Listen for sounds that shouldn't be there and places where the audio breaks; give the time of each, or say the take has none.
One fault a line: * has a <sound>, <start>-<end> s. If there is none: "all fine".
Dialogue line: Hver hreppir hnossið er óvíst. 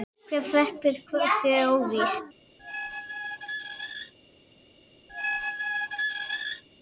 * has a squeak, 2.6-4.1 s
* has a squeak, 5.1-6.6 s